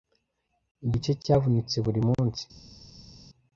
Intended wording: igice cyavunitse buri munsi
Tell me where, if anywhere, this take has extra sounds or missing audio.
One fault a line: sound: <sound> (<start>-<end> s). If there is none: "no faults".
no faults